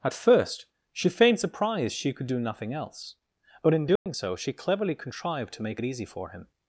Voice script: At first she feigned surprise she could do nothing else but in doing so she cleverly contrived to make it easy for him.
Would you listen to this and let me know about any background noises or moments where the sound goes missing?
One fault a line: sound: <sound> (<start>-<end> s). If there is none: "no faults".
sound: dropout (4.0-4.1 s)